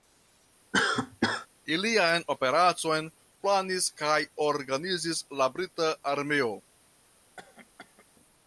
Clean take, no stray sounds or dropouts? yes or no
no